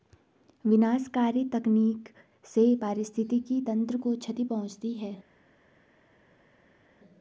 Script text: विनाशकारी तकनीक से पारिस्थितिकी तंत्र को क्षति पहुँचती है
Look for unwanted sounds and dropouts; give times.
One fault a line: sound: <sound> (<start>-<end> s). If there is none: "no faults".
no faults